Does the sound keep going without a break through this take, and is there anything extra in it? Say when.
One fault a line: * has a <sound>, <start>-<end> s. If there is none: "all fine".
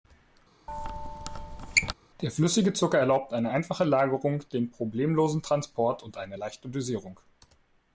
* has a squeak, 0.7-1.9 s